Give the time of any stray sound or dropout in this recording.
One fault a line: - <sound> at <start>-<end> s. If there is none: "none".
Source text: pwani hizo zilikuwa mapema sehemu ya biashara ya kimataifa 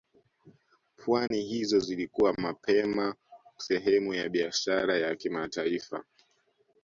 - dropout at 1.3-1.3 s